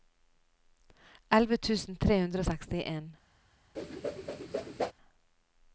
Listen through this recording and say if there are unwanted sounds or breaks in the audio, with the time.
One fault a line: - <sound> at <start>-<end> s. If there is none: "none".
- whoosh at 3.8-4.9 s